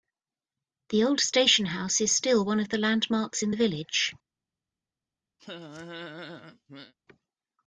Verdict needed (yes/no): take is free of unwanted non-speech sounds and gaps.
no